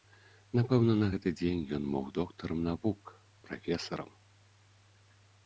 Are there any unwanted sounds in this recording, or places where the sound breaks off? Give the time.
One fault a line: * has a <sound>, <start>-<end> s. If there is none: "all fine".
all fine